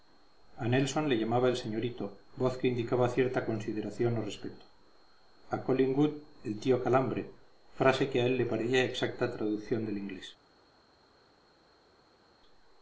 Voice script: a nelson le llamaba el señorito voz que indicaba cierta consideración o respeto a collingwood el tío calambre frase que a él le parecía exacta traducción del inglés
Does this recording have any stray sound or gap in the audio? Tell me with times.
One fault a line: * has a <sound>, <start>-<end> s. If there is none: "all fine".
all fine